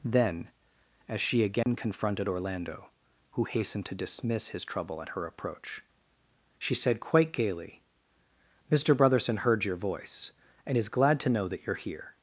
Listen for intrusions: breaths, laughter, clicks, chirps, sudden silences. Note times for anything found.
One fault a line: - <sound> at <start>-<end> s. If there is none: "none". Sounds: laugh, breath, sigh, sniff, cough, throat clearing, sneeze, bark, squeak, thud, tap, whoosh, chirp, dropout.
- dropout at 1.6-1.7 s